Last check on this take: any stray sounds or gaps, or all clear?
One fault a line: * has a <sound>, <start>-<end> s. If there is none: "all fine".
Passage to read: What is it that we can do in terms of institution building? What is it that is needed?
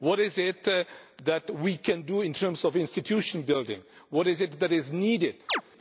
* has a chirp, 5.5-5.6 s